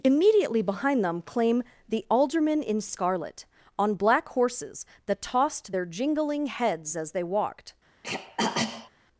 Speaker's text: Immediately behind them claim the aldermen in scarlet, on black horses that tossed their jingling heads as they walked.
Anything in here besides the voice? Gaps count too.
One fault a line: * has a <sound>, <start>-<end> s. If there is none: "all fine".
* has a throat clearing, 8.0-8.9 s